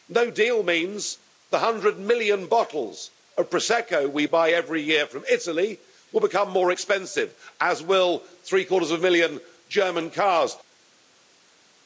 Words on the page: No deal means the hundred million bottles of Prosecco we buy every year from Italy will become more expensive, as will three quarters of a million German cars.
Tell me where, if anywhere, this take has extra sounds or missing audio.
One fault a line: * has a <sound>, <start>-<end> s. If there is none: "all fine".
all fine